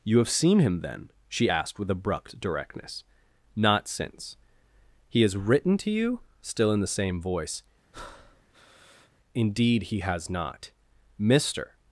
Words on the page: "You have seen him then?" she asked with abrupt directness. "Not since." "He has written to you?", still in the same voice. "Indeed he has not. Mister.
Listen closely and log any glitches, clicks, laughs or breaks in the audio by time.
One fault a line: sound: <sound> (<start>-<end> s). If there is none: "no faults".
sound: breath (7.9-9.1 s)